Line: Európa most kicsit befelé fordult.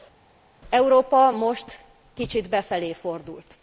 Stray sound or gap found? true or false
false